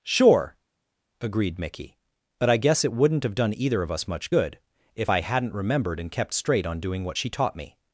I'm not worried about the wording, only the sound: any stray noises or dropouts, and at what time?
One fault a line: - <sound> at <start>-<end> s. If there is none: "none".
none